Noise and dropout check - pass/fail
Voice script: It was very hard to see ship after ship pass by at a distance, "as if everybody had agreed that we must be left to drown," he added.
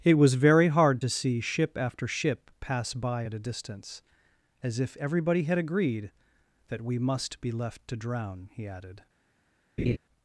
fail